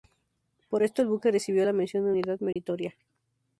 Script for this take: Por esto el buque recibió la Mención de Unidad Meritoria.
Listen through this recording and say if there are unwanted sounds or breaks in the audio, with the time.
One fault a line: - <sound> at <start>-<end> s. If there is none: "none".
- dropout at 2.5-2.6 s